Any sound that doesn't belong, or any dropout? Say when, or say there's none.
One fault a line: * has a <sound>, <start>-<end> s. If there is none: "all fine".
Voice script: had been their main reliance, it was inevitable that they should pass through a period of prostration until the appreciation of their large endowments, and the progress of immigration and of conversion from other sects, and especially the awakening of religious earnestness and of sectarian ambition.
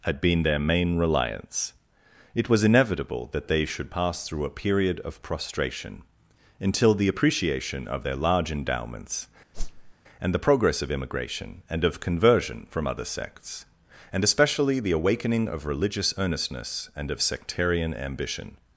* has a whoosh, 9.5-9.9 s